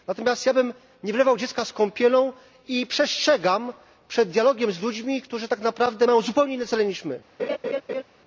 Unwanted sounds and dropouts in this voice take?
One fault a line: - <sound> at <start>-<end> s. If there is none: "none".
- laugh at 7.4-8.0 s